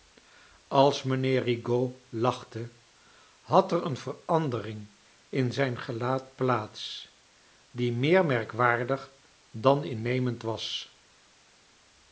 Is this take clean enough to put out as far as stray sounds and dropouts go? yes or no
yes